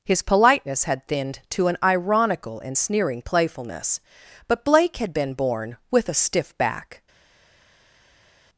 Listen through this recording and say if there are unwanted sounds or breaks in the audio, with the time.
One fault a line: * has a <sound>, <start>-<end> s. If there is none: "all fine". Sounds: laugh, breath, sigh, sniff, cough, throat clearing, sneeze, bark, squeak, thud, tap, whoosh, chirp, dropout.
all fine